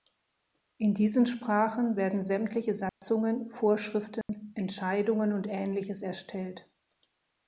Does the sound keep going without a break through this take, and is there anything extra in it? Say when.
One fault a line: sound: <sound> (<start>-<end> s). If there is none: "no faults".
sound: dropout (2.9-3.0 s)
sound: dropout (4.2-4.3 s)